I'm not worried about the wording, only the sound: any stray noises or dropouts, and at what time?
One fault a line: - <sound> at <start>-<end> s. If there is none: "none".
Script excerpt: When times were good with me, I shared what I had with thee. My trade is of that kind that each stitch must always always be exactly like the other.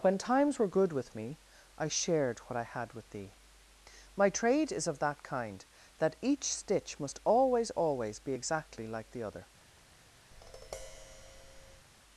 - tap at 10.3-11.9 s